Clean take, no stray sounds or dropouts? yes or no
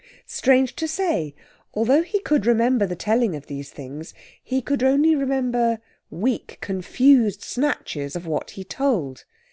yes